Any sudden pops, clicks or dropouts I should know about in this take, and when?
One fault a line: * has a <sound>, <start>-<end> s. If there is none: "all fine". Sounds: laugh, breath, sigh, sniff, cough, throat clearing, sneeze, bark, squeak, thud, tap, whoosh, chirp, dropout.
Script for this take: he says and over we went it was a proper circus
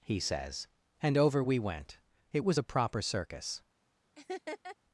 * has a laugh, 4.2-4.8 s